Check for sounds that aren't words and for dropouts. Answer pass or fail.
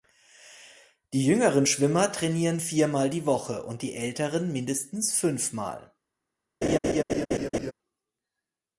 fail